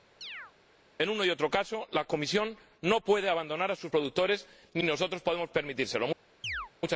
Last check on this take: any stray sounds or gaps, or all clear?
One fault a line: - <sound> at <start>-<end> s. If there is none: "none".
- chirp at 0.2-0.5 s
- chirp at 6.4-6.7 s